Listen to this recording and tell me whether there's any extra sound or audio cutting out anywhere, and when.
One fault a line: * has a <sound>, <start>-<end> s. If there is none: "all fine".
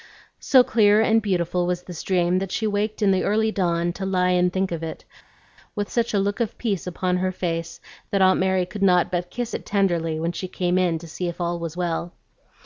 all fine